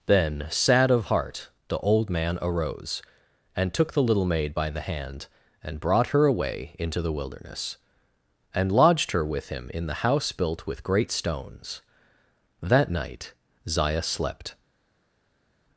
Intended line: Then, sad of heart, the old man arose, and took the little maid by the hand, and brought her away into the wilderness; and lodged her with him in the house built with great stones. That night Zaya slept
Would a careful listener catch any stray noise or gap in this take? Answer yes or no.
no